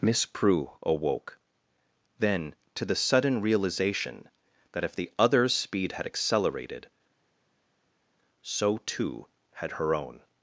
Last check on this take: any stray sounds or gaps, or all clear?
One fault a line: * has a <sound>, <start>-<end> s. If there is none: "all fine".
all fine